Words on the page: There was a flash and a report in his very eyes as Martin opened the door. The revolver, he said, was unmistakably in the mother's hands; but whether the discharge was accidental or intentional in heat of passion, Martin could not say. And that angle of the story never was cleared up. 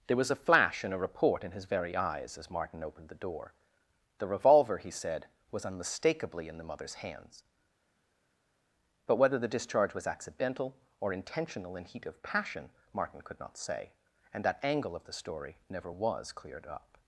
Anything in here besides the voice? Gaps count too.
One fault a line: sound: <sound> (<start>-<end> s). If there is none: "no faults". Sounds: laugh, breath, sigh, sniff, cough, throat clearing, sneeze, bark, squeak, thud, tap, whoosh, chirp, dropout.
no faults